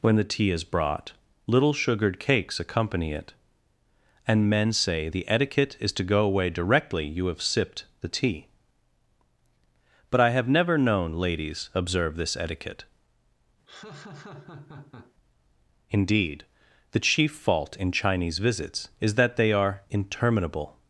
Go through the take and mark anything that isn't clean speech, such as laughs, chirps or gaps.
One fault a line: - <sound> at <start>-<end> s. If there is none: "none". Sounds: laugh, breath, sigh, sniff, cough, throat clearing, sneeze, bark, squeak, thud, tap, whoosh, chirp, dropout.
- laugh at 13.7-15.1 s